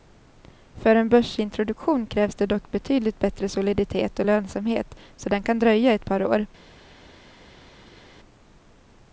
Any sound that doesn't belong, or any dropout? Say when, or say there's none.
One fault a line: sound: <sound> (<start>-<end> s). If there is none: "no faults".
no faults